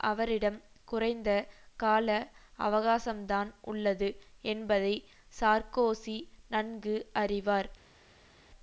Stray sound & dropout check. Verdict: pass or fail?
pass